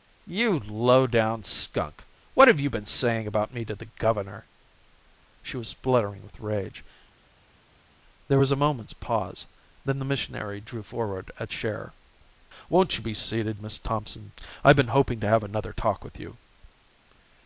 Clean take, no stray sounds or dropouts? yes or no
yes